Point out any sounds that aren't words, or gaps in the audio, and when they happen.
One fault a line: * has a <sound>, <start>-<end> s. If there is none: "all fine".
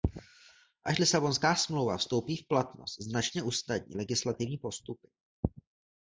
all fine